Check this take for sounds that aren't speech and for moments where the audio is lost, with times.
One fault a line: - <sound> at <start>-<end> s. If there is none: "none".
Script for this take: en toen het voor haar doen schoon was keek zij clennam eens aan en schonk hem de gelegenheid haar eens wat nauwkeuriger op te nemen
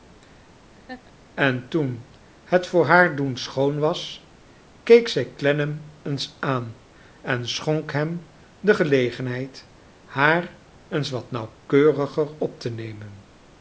- laugh at 0.7-1.1 s